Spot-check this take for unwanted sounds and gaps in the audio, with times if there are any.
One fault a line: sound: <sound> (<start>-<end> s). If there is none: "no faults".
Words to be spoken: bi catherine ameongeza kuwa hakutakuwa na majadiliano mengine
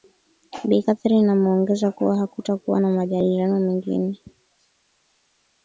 no faults